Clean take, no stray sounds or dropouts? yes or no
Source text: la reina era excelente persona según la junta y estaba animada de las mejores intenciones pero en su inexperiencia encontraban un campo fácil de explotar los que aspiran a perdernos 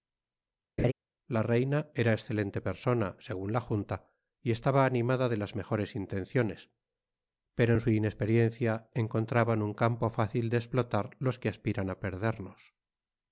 no